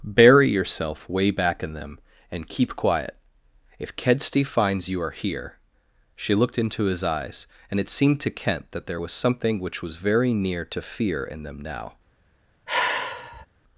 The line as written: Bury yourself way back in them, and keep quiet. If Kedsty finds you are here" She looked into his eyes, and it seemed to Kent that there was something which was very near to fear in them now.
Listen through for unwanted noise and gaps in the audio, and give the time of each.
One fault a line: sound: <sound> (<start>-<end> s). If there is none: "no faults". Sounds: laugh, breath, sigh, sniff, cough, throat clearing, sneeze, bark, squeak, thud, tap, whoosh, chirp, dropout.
sound: sigh (12.7-13.5 s)